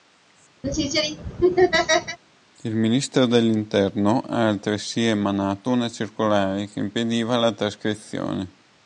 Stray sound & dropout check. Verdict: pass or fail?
fail